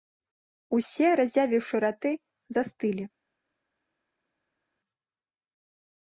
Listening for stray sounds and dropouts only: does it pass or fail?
pass